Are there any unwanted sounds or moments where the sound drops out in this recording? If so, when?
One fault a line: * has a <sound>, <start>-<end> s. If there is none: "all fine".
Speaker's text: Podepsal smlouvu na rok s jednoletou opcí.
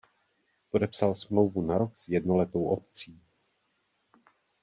all fine